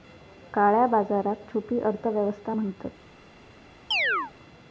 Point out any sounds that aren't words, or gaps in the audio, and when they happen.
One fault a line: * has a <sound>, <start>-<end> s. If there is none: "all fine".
* has a chirp, 3.9-4.3 s